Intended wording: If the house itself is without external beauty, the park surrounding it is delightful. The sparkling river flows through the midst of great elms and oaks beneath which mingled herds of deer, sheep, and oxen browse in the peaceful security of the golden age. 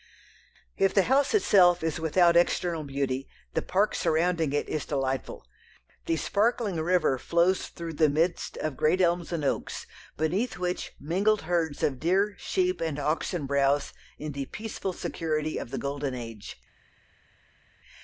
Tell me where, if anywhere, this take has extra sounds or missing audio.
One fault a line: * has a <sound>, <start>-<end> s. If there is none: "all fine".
all fine